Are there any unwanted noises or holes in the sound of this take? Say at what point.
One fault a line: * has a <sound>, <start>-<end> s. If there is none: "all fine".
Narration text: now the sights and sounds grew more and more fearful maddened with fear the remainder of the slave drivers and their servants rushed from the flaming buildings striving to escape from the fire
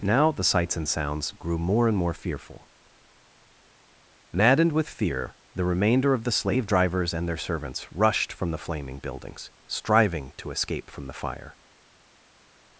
all fine